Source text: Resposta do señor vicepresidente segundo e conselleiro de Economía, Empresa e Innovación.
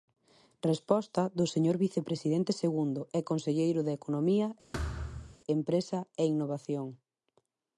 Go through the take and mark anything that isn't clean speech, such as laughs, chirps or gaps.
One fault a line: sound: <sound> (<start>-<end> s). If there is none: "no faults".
sound: thud (4.7-5.4 s)